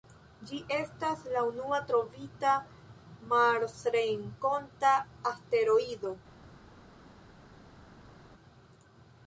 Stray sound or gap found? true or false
false